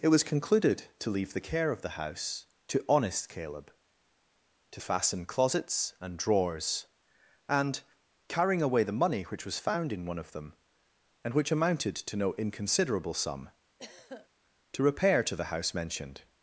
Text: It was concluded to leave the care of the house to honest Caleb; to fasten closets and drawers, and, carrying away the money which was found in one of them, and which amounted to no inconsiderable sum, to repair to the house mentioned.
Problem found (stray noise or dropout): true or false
true